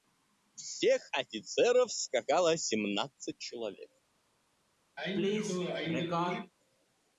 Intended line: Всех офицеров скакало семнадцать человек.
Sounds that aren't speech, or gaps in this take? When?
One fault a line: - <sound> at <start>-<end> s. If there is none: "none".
- sneeze at 5.0-6.5 s